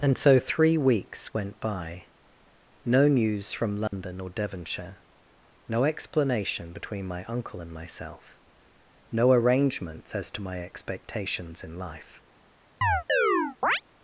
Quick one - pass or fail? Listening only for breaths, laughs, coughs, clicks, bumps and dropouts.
fail